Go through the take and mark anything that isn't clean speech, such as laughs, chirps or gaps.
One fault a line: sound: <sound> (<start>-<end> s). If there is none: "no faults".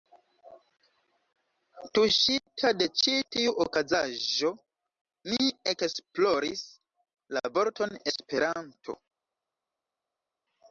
no faults